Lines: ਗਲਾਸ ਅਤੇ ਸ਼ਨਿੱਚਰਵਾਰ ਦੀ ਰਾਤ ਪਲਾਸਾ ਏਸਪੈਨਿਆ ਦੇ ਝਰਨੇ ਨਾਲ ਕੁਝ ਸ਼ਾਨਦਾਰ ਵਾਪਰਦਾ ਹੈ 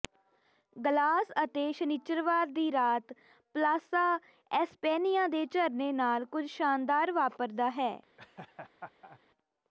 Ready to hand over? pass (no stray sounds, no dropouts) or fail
fail